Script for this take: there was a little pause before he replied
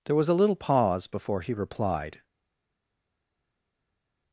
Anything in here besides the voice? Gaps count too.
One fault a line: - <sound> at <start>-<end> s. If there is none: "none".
none